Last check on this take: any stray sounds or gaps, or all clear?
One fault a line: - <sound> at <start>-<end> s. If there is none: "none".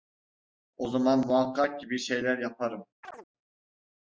- chirp at 3.0-3.3 s